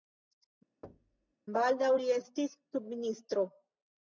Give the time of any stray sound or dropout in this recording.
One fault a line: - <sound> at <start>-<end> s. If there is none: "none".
- thud at 0.8-1.3 s